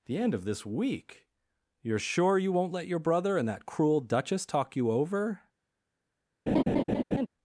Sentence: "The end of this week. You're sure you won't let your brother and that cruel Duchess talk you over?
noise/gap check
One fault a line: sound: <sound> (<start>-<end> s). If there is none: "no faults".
sound: laugh (6.5-7.3 s)